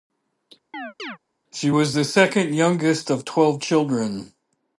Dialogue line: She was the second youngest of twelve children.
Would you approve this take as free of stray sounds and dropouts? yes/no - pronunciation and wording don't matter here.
no